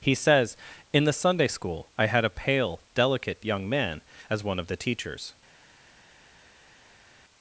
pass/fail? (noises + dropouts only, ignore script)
pass